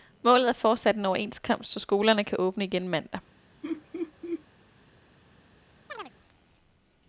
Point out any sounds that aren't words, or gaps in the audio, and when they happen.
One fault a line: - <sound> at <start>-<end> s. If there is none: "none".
- laugh at 3.6-4.4 s
- chirp at 5.9-6.1 s